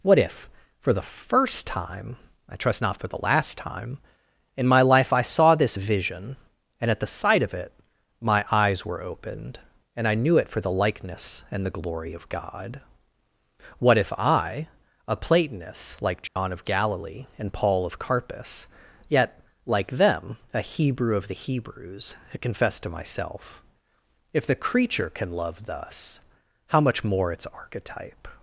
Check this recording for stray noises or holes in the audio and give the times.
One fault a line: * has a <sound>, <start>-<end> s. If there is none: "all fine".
* has a dropout, 16.3-16.4 s